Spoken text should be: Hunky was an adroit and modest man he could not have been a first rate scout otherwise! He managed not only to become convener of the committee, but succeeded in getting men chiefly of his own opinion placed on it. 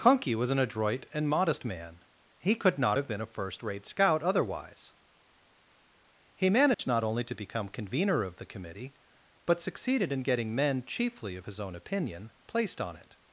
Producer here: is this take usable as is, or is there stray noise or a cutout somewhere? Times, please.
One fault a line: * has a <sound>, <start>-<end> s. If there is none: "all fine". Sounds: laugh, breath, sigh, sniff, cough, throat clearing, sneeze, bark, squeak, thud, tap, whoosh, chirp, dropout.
* has a dropout, 6.7-6.8 s